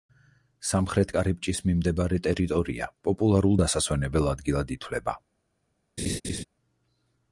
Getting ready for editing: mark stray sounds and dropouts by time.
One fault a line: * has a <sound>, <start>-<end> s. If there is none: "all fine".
* has a laugh, 6.0-6.4 s